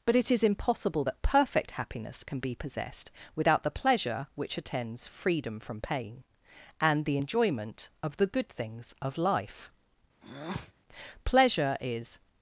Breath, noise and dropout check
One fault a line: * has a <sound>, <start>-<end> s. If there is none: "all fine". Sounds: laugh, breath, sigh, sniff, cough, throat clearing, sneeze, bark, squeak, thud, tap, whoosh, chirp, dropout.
* has a breath, 10.2-10.7 s